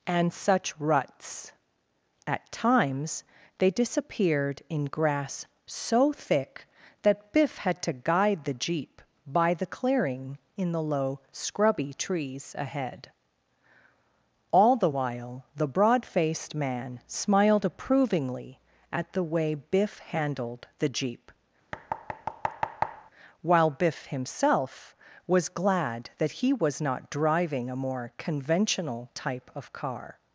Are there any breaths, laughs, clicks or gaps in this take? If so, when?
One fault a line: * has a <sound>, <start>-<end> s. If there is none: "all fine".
* has a thud, 21.7-23.1 s